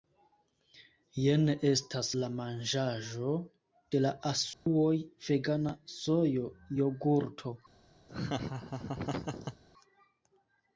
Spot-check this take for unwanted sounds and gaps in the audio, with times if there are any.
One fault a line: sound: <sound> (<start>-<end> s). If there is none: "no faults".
sound: dropout (4.5-4.7 s)
sound: laugh (8.1-9.6 s)